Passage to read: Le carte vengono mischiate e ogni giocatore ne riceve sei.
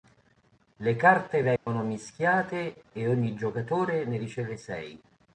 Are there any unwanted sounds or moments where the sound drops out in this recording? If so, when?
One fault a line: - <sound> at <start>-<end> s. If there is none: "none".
- dropout at 1.6-1.7 s